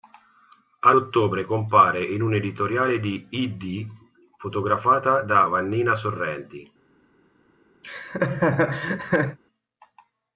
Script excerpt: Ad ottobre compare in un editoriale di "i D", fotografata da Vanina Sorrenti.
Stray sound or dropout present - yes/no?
yes